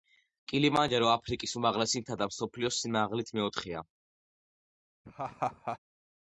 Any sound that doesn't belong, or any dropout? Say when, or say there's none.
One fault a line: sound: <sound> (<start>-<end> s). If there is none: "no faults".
sound: laugh (5.0-5.8 s)